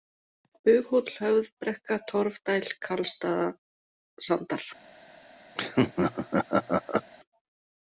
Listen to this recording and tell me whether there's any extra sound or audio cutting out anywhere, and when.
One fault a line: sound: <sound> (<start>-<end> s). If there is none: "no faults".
sound: laugh (5.6-7.1 s)